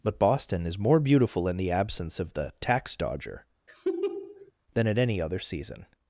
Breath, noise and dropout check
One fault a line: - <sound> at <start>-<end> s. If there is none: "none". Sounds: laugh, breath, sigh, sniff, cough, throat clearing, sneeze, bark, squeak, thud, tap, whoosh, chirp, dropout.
- laugh at 3.7-4.5 s